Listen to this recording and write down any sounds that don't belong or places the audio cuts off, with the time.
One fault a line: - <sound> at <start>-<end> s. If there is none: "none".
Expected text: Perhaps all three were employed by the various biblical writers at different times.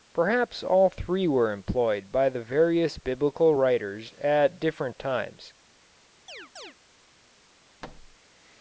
- chirp at 6.3-6.7 s
- thud at 7.8-8.2 s